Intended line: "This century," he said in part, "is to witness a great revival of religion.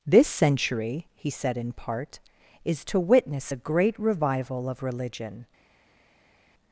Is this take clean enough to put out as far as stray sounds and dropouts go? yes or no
yes